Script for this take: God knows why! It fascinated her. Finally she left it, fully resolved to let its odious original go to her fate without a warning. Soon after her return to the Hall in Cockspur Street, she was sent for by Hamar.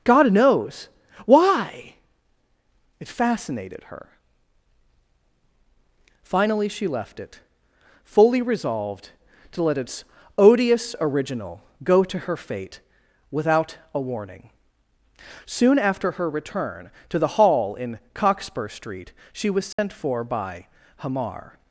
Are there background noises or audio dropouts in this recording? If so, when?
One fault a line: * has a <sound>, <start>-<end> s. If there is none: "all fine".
* has a dropout, 19.7-19.8 s